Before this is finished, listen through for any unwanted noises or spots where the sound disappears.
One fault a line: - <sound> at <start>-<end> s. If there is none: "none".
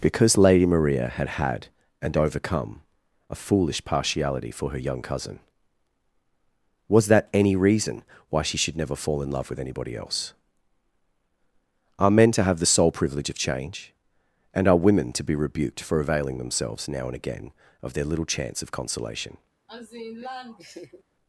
- laugh at 19.7-21.0 s